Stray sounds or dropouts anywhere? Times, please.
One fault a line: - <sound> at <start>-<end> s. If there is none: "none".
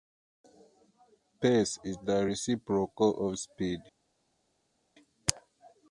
none